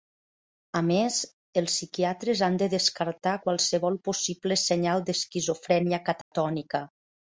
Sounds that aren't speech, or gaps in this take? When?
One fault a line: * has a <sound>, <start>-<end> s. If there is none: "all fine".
* has a dropout, 6.2-6.3 s